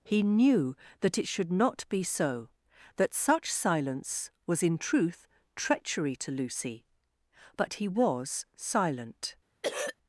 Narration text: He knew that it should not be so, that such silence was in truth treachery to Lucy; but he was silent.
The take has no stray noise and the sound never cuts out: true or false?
false